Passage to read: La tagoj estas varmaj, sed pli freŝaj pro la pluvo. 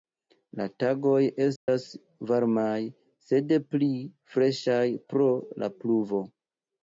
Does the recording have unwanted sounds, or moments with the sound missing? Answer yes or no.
yes